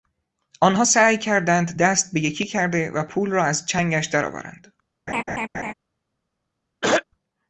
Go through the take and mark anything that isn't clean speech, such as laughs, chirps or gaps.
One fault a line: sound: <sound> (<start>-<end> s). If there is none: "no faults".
sound: laugh (5.1-5.7 s)
sound: throat clearing (6.8-7.0 s)